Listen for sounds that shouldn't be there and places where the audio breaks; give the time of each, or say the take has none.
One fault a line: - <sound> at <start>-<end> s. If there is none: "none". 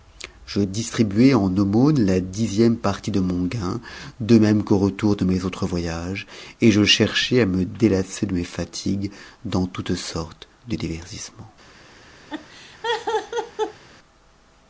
- laugh at 12.3-13.8 s